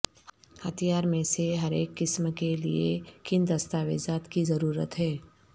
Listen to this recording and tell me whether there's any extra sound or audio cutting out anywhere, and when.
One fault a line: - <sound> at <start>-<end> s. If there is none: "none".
none